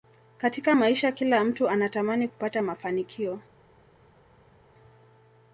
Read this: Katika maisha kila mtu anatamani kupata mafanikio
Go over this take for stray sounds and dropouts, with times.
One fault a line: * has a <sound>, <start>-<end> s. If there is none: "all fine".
all fine